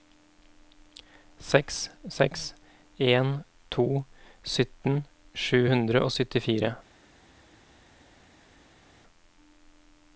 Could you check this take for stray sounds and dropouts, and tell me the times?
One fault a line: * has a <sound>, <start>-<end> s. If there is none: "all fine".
all fine